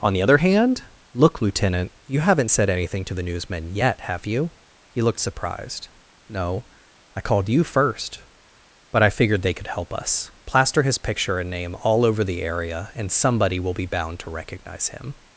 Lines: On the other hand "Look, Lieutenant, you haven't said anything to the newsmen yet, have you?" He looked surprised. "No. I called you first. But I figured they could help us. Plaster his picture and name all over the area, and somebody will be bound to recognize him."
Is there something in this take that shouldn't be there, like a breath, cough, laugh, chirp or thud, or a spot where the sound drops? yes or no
no